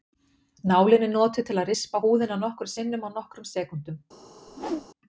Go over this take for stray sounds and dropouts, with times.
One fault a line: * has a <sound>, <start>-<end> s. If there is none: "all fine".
* has a whoosh, 4.5-4.9 s